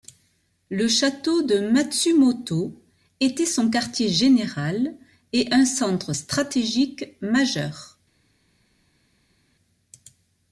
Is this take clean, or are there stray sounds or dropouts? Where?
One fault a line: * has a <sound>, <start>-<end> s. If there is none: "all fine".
all fine